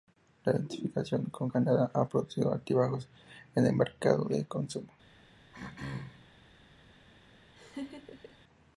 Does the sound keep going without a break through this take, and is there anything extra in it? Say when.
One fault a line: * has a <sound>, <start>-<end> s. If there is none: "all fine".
* has a throat clearing, 5.5-6.3 s
* has a laugh, 7.5-8.4 s